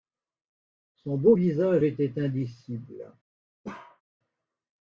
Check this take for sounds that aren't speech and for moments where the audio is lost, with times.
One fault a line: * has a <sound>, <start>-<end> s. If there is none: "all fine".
* has a bark, 3.6-4.0 s